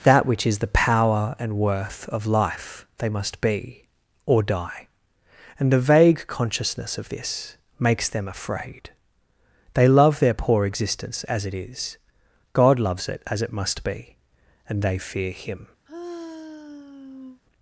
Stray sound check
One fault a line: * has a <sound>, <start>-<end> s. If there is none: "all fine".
* has a sigh, 15.9-17.4 s